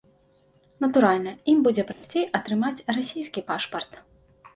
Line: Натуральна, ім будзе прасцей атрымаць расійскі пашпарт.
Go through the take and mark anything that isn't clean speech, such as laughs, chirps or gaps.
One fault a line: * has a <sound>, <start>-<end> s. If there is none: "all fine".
* has a dropout, 1.9-2.0 s